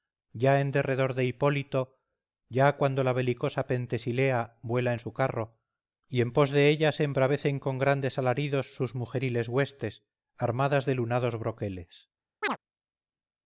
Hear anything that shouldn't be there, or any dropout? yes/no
yes